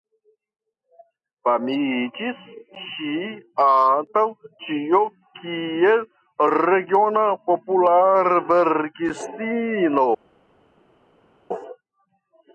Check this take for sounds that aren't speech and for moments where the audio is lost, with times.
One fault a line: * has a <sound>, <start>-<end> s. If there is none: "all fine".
all fine